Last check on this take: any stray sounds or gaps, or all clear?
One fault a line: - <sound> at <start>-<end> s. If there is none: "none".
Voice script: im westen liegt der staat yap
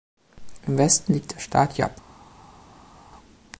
none